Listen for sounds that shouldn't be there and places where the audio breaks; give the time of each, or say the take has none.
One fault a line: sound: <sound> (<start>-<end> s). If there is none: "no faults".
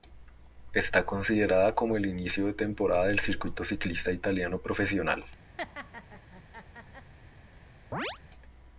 sound: laugh (5.6-7.1 s)
sound: chirp (7.9-8.2 s)